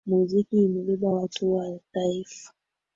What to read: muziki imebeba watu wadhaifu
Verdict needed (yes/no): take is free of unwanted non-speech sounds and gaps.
yes